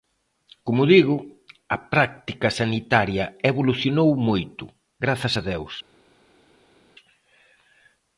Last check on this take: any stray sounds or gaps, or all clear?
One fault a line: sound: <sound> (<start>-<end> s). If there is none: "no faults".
no faults